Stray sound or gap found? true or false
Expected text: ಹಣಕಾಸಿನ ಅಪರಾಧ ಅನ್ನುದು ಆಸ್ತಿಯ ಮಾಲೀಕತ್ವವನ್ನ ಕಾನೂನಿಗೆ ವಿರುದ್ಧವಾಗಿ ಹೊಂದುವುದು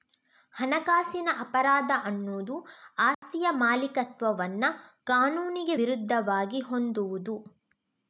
true